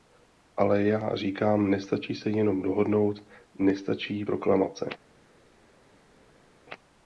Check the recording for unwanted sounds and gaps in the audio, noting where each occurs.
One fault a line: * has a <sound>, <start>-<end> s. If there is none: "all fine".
all fine